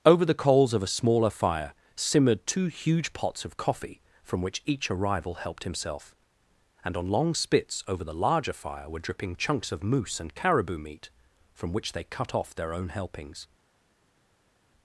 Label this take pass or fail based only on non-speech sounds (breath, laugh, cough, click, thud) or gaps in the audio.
pass